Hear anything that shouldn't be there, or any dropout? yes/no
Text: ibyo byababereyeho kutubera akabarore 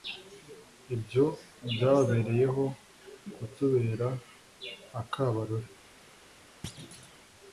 yes